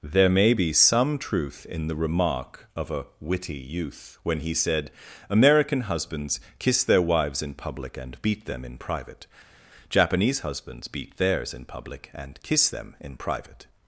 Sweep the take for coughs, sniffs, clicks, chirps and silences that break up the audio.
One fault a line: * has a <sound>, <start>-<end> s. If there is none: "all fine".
all fine